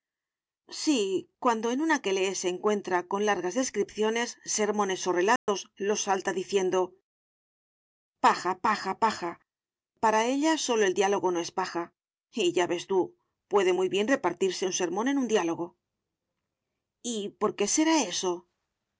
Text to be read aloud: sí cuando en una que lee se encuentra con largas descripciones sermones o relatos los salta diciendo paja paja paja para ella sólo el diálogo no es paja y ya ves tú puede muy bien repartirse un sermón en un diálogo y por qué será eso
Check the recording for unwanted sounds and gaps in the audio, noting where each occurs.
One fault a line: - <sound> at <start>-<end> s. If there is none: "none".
- dropout at 5.4-5.5 s